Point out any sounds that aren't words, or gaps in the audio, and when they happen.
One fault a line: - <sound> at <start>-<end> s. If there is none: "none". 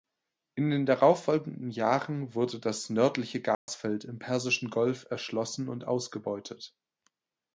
- dropout at 3.5-3.7 s